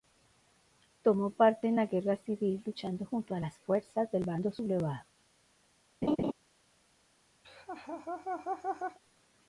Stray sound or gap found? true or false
true